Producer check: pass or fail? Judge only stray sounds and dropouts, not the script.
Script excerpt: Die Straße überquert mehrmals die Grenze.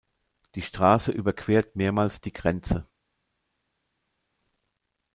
pass